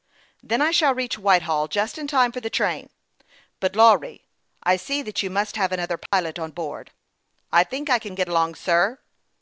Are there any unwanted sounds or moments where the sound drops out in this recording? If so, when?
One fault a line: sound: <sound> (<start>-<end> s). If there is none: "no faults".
sound: dropout (6.1-6.1 s)